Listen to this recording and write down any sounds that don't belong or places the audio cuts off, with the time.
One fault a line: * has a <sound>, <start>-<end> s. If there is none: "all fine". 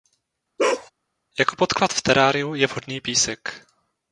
* has a bark, 0.6-0.9 s